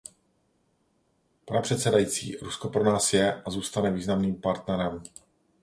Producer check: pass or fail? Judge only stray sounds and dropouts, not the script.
pass